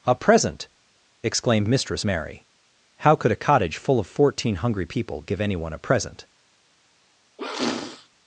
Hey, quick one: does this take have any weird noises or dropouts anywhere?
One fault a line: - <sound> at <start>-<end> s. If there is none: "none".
- sniff at 7.4-8.1 s